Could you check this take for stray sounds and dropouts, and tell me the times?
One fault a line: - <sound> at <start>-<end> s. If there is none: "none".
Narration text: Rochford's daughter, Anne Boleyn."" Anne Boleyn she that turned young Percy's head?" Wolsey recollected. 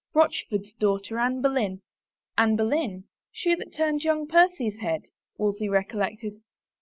none